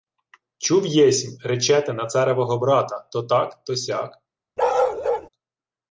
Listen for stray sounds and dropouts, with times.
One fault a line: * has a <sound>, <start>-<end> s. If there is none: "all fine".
* has a bark, 4.6-5.3 s